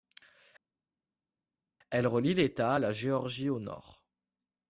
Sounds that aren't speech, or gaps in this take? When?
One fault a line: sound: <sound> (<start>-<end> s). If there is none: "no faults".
no faults